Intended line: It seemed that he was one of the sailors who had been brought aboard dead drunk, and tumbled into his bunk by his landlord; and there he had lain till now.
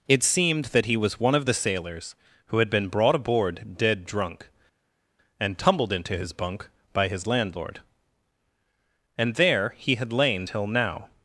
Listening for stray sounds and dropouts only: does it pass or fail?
pass